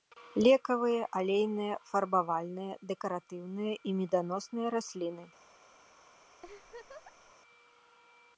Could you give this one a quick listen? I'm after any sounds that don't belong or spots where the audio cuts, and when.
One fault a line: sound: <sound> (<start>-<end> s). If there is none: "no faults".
sound: laugh (6.4-7.3 s)